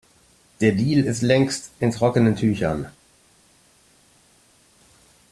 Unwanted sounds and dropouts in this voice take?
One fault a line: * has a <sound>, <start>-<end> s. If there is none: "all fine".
all fine